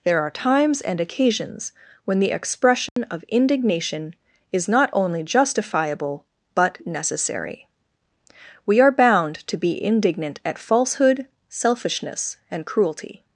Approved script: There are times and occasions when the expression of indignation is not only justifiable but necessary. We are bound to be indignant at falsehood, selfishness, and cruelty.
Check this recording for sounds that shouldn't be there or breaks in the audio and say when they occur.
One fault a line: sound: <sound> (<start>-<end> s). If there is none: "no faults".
sound: dropout (2.9-3.0 s)